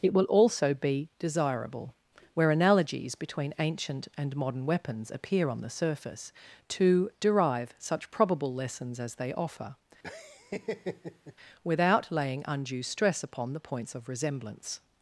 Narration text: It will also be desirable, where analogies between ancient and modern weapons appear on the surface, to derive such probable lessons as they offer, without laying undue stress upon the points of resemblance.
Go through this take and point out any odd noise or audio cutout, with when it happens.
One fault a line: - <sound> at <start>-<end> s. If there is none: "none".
- laugh at 10.0-11.3 s